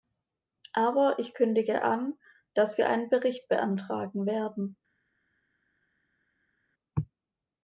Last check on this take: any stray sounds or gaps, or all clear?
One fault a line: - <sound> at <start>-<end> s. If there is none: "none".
none